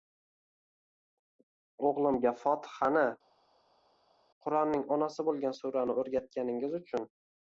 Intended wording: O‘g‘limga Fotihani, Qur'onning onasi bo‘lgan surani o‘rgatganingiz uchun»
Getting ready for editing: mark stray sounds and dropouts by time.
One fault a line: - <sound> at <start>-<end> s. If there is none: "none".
none